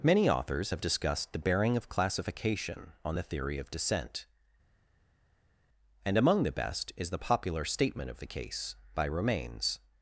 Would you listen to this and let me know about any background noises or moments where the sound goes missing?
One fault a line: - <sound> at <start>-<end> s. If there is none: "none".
none